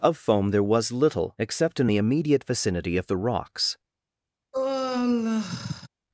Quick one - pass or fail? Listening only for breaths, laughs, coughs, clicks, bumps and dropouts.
fail